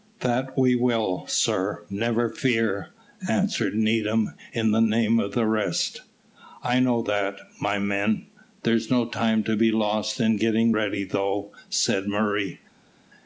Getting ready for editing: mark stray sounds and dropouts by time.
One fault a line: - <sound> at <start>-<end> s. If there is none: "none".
none